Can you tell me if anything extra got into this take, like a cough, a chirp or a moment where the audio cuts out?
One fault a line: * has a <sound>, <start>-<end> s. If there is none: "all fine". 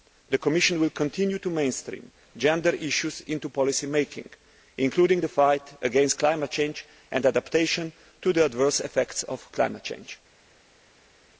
all fine